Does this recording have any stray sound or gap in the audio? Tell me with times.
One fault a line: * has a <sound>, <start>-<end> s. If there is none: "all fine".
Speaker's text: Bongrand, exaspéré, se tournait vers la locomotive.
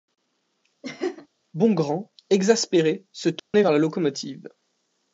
* has a laugh, 0.8-1.3 s
* has a dropout, 3.4-3.5 s